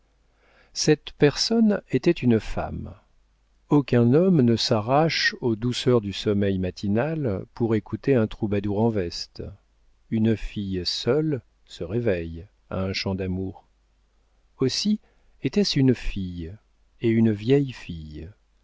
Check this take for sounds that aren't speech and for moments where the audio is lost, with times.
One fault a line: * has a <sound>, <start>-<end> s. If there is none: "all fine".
all fine